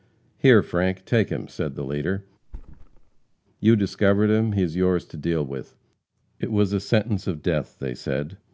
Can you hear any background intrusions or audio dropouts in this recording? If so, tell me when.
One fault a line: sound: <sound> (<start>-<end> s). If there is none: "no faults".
sound: thud (2.4-3.4 s)